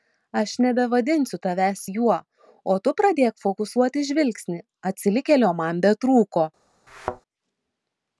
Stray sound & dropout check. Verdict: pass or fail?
fail